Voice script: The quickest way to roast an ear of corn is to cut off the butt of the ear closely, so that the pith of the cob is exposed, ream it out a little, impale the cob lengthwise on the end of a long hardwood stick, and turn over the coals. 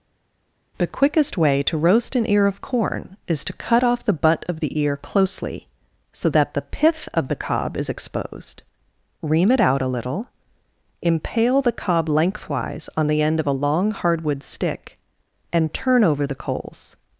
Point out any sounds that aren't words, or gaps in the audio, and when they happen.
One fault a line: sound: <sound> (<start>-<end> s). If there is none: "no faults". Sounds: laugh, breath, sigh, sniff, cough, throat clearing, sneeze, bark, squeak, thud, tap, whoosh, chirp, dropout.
no faults